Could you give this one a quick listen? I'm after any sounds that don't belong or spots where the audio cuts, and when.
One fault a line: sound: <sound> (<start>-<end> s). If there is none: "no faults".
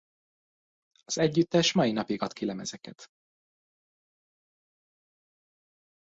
no faults